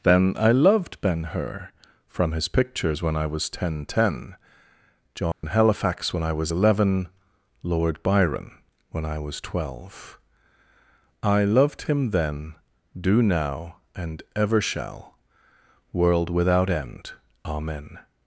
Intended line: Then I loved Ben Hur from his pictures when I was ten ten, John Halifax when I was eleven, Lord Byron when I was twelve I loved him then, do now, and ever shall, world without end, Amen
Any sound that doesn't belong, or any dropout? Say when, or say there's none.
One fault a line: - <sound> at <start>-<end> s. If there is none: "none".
- dropout at 5.3-5.4 s